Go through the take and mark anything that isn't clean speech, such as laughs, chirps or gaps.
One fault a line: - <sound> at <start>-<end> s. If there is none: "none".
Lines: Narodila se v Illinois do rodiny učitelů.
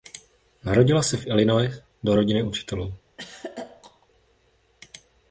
- throat clearing at 3.2-4.1 s